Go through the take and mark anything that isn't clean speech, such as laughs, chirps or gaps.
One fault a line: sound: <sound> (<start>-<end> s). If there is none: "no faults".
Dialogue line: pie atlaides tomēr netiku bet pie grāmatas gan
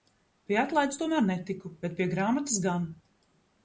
no faults